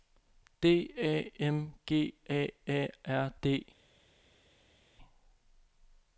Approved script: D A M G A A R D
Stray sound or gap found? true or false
false